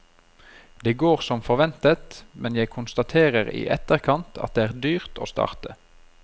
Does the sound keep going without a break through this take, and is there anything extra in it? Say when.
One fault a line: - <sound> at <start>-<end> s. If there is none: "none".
none